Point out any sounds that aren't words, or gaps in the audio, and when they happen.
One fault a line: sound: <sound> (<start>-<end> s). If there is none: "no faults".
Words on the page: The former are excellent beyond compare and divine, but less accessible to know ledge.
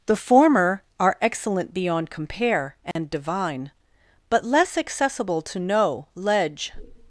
sound: dropout (2.9-3.0 s)